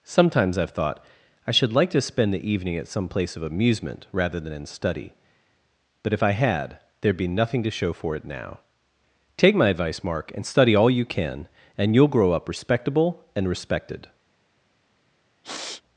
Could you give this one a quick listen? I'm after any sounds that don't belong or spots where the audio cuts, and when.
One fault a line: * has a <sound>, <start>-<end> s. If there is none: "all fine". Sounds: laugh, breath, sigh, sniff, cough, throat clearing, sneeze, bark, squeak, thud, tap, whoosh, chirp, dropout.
* has a sniff, 15.4-15.8 s